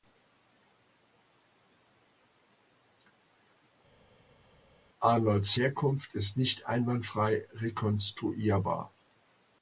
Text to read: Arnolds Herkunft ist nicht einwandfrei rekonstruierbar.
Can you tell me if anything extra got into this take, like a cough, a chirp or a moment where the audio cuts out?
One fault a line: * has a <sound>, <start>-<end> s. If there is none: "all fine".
all fine